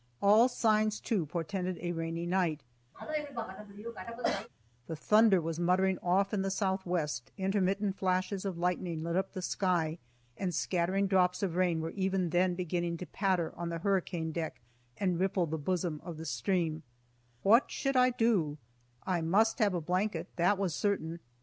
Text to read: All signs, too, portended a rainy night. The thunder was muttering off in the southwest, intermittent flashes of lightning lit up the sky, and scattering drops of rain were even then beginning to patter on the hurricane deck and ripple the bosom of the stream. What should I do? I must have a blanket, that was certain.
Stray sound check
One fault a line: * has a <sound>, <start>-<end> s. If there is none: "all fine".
* has a cough, 2.9-4.5 s